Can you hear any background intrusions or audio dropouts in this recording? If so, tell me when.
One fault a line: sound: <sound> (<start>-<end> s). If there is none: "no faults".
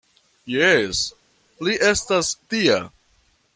no faults